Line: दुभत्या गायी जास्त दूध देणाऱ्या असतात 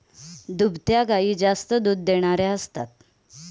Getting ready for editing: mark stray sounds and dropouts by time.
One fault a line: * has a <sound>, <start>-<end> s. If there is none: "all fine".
all fine